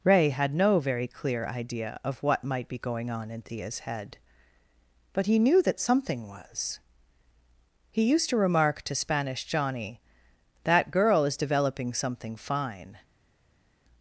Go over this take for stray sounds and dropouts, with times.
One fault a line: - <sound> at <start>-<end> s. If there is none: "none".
none